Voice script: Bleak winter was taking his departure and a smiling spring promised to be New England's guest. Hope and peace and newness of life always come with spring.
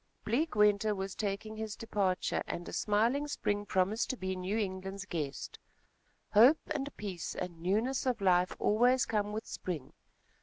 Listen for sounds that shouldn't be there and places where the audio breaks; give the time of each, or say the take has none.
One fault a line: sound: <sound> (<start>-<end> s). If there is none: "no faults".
no faults